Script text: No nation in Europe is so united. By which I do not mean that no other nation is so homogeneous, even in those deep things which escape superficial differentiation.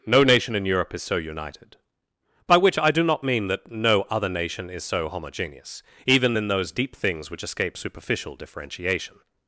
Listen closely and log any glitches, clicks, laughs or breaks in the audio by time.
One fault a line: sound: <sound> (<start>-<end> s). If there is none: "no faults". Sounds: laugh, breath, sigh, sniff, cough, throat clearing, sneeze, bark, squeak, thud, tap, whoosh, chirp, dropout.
no faults